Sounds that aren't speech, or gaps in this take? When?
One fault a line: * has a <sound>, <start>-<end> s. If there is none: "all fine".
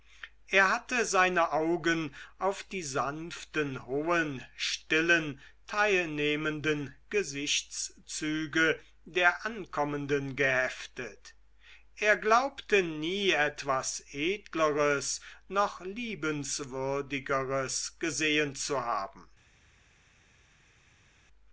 all fine